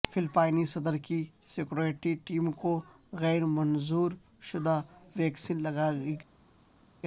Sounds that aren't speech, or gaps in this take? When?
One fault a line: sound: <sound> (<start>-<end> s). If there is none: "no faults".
no faults